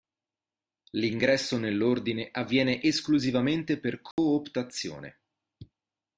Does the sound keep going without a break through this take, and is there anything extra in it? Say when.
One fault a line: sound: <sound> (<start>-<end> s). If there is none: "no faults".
sound: dropout (4.1-4.2 s)